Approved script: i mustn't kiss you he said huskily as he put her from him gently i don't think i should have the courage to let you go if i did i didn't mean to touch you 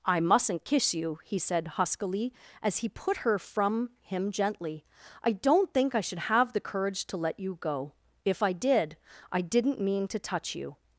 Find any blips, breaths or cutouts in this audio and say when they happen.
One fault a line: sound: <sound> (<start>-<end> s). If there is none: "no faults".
no faults